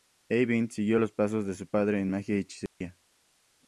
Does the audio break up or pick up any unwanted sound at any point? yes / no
yes